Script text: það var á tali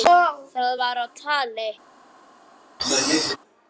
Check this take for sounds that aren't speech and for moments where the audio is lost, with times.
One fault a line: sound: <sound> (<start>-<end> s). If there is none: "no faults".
sound: throat clearing (2.8-3.4 s)